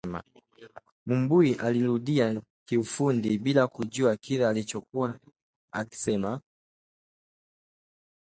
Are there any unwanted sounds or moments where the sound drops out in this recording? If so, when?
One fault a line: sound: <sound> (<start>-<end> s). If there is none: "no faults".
no faults